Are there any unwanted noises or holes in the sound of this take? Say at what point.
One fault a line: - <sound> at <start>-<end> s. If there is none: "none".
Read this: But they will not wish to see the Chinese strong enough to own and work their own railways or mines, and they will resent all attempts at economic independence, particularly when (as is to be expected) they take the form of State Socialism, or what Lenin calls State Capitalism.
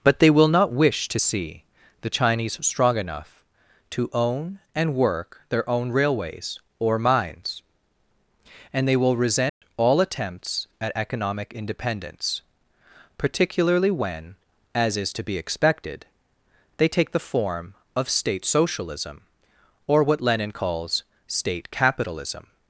- dropout at 9.5-9.6 s